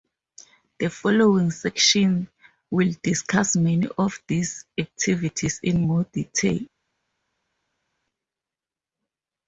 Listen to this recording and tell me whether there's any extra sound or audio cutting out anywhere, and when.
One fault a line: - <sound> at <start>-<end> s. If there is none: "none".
none